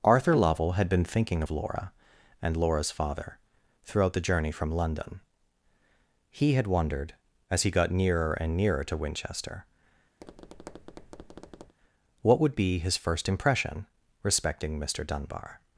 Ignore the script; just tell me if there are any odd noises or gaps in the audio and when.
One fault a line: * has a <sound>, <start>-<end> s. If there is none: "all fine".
* has a tap, 10.2-11.7 s